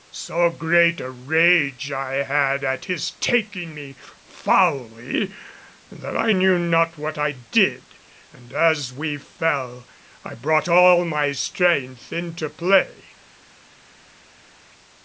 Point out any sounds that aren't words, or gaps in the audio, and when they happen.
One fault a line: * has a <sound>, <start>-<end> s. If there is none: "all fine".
all fine